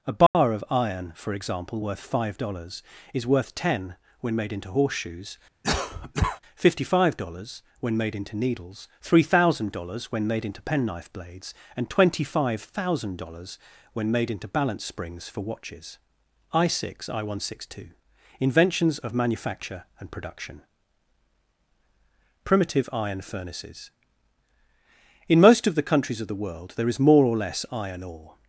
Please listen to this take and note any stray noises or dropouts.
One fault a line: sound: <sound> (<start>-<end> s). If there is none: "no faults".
sound: dropout (0.3-0.3 s)
sound: cough (5.6-6.4 s)